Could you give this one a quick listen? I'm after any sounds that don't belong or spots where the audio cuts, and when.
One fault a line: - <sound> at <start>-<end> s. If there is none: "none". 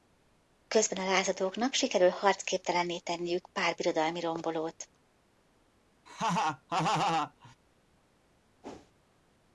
- laugh at 6.1-7.6 s
- whoosh at 8.6-8.9 s